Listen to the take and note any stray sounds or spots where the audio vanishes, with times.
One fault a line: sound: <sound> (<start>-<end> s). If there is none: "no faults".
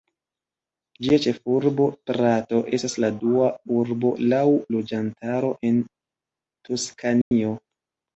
sound: dropout (7.2-7.3 s)